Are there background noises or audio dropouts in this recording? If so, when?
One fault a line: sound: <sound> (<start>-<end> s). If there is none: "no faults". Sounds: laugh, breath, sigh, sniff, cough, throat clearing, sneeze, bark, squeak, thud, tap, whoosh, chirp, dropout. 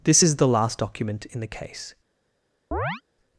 sound: chirp (2.7-3.0 s)